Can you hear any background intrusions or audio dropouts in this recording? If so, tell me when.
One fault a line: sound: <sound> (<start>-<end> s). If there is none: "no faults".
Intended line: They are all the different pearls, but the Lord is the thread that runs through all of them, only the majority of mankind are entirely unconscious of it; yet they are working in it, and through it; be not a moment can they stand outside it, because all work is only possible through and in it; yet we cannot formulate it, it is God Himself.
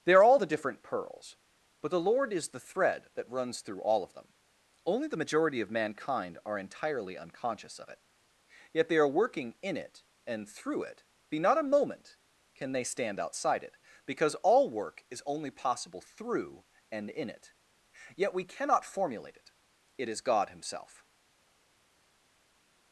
no faults